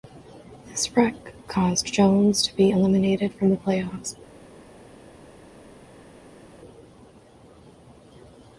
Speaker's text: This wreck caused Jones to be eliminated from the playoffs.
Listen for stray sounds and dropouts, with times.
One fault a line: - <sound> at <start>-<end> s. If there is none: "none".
none